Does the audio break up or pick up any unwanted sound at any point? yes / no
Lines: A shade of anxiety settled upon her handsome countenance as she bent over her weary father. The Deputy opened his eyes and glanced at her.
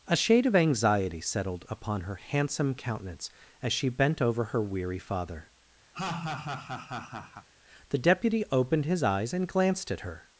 yes